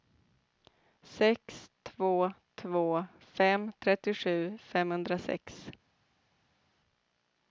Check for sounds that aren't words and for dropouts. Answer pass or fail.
pass